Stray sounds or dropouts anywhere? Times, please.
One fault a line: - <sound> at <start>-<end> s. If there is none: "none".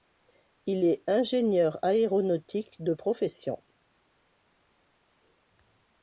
none